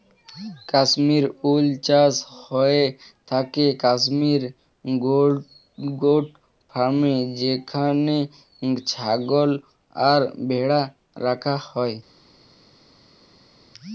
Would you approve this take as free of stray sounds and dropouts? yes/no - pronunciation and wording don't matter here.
yes